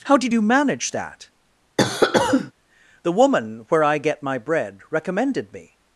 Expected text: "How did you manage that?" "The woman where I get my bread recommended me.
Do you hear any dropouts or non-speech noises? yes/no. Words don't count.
yes